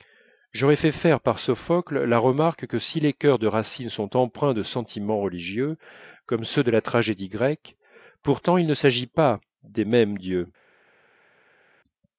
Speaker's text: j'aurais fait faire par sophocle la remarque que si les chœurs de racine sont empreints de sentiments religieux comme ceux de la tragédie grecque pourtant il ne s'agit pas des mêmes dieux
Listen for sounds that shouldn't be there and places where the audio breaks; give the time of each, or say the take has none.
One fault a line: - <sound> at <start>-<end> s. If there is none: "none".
none